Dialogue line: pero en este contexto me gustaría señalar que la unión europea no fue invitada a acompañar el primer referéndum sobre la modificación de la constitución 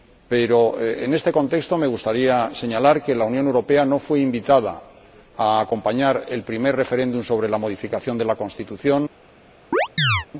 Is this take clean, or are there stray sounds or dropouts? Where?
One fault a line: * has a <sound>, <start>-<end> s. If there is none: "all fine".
* has a chirp, 9.7-10.3 s